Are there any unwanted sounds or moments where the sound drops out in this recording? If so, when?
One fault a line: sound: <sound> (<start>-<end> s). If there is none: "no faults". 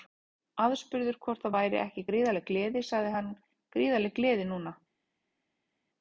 no faults